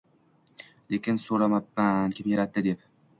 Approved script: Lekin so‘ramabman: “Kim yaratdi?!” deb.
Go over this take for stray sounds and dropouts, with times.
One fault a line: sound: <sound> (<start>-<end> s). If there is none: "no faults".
no faults